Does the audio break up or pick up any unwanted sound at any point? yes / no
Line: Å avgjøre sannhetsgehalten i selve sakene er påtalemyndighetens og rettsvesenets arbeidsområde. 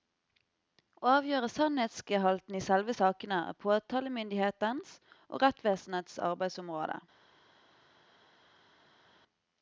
no